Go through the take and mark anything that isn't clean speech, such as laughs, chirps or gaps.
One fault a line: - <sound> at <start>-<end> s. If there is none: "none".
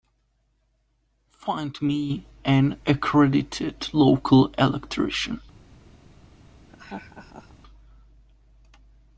- laugh at 6.7-7.5 s